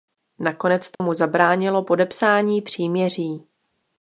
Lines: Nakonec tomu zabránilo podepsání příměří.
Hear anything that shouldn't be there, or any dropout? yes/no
yes